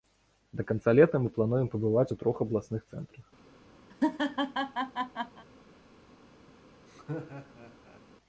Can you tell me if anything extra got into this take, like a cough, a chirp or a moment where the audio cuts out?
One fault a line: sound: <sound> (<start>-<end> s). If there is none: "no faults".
sound: laugh (3.9-5.4 s)
sound: laugh (6.9-8.0 s)